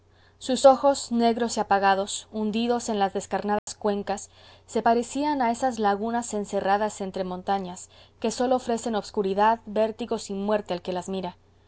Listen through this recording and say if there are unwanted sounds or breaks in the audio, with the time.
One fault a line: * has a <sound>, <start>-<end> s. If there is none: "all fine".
* has a dropout, 3.6-3.7 s